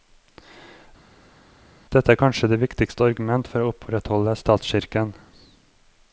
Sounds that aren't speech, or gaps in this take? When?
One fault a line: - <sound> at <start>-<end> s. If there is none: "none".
none